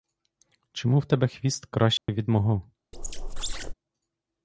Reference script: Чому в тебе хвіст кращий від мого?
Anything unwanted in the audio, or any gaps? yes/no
yes